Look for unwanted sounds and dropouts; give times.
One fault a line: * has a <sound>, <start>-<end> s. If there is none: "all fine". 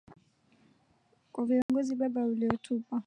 * has a dropout, 1.6-1.7 s